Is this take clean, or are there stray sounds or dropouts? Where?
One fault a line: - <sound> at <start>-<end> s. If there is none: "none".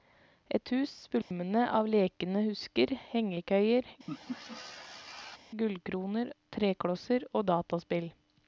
- dropout at 1.2-1.3 s
- laugh at 4.1-5.4 s